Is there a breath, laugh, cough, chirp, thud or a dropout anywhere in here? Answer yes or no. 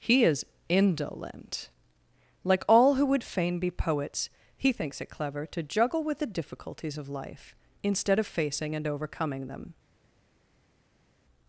no